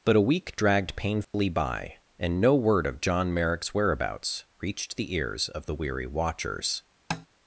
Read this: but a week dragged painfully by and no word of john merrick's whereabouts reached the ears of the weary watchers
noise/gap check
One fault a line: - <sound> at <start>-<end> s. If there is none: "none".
- dropout at 1.2-1.3 s
- tap at 7.1-7.3 s